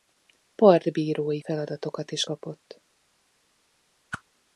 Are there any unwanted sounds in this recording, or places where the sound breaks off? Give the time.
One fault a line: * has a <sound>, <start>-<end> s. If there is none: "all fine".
* has a whoosh, 4.1-4.2 s